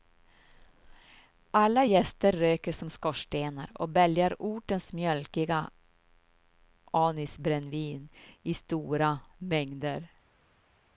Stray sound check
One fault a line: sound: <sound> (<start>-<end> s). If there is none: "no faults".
no faults